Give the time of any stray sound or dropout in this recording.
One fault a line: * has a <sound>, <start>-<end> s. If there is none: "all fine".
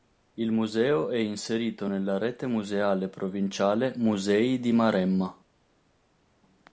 all fine